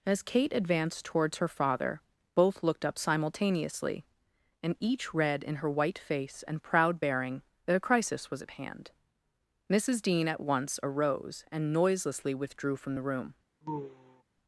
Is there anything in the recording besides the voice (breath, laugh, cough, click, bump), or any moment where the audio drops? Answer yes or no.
yes